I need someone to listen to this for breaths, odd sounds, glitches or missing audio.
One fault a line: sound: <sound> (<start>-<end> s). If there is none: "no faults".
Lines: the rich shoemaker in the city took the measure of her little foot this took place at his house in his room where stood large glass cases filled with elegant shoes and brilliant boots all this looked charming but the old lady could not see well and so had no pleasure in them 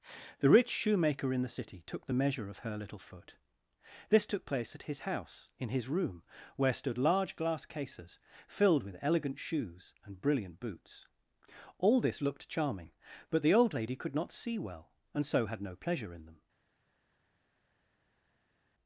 no faults